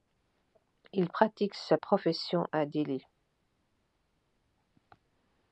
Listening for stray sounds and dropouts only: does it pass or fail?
pass